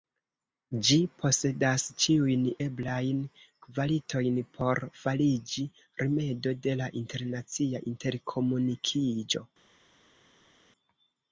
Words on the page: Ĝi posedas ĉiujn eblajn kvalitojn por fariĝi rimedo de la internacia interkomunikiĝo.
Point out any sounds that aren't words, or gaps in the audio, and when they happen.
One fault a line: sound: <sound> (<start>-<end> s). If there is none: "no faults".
no faults